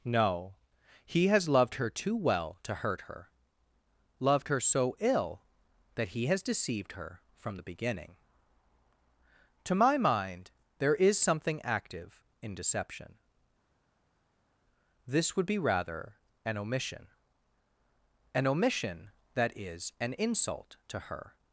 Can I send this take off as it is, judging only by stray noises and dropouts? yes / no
yes